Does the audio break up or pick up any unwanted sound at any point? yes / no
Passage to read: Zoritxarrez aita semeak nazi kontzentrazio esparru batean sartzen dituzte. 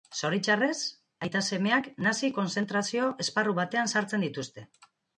no